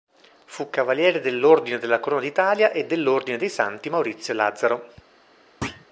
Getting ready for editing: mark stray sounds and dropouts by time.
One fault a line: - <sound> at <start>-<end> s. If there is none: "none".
- thud at 5.6-5.9 s